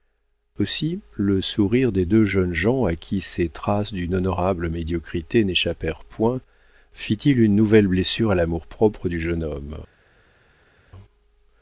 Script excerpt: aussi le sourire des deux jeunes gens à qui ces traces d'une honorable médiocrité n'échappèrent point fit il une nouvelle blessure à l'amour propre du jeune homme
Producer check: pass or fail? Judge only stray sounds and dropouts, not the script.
pass